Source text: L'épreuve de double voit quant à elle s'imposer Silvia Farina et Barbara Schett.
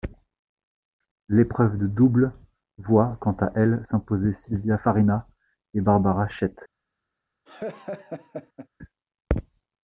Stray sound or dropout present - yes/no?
yes